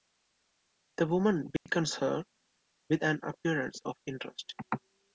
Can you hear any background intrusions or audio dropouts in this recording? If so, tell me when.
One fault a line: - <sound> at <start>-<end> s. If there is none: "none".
- dropout at 1.6-1.7 s